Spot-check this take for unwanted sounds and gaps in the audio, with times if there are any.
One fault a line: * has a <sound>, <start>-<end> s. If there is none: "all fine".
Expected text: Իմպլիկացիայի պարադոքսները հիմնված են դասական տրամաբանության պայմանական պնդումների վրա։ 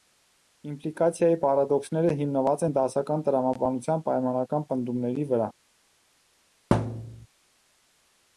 * has a thud, 6.7-7.3 s